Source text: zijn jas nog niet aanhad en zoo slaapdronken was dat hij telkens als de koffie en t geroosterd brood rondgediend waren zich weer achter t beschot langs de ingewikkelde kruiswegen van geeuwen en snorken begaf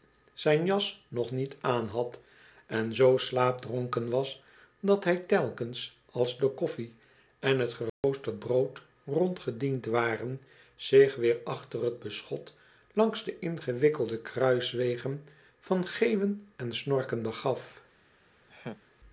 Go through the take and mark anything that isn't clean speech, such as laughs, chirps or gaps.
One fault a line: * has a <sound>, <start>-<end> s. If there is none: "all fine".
* has a dropout, 7.9-8.0 s
* has a laugh, 18.5-18.8 s